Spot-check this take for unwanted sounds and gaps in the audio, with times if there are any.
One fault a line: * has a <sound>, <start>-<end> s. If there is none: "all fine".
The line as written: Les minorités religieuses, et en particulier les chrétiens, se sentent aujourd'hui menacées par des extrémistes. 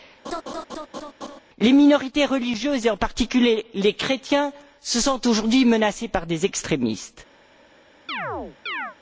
* has a laugh, 0.2-1.4 s
* has a chirp, 8.1-9.0 s